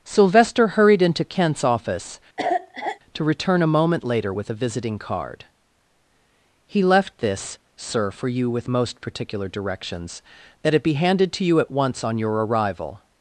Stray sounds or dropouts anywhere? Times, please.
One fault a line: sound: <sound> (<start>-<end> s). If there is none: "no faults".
sound: cough (2.4-3.0 s)